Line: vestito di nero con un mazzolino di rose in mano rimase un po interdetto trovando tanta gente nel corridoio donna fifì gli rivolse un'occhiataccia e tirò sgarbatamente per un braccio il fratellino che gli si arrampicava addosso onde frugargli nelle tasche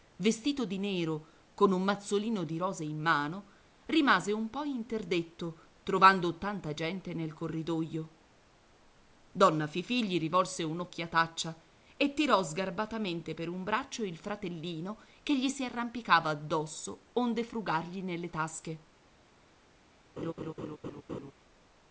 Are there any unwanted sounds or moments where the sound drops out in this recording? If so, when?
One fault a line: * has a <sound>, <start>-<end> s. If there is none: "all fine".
* has a laugh, 20.2-21.3 s